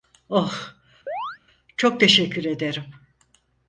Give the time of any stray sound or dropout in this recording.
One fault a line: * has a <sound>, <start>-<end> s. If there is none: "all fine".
* has a chirp, 1.1-1.4 s